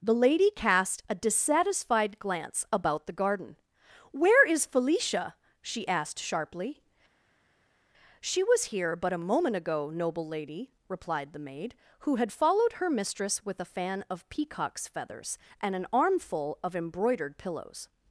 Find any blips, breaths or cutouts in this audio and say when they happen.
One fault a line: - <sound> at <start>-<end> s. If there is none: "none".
none